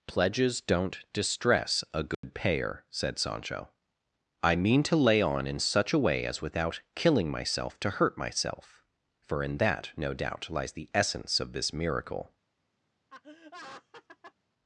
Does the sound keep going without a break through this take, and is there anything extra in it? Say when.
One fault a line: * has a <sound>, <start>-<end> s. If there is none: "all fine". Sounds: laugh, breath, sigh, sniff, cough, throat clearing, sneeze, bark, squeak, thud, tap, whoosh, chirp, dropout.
* has a dropout, 2.1-2.2 s
* has a laugh, 13.1-14.3 s